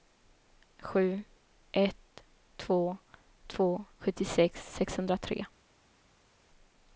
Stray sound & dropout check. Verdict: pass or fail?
pass